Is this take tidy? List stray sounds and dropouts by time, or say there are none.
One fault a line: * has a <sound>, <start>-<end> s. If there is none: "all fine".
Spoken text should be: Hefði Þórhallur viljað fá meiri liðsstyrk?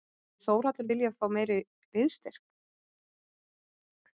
all fine